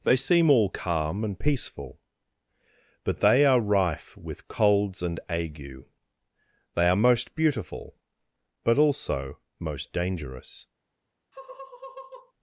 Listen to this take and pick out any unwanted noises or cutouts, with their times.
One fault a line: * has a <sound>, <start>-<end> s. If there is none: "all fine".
* has a laugh, 11.3-12.3 s